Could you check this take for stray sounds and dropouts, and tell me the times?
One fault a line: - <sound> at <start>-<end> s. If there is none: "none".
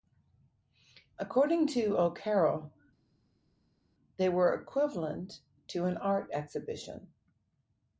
none